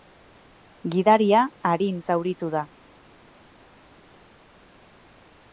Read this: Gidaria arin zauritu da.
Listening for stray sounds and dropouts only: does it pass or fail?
pass